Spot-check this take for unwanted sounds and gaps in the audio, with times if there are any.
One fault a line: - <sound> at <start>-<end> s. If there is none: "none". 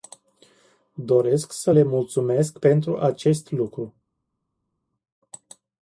none